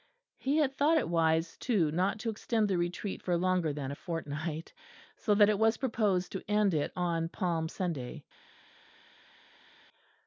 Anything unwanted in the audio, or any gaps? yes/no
no